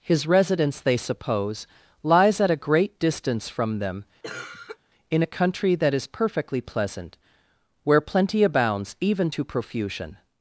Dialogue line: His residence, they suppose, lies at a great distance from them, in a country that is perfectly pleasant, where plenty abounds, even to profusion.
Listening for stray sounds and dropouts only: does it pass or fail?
fail